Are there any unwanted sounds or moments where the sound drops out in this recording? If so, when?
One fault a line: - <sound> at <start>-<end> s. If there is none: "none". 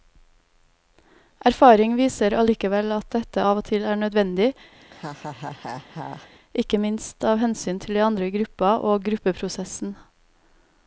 - laugh at 4.8-6.3 s